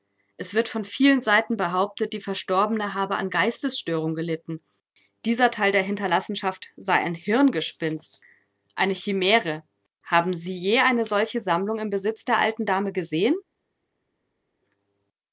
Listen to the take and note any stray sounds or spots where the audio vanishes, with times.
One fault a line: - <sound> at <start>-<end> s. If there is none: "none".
none